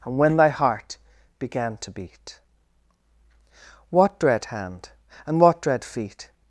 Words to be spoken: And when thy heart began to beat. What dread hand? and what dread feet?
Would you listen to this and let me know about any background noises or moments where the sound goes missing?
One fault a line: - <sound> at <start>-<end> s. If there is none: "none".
none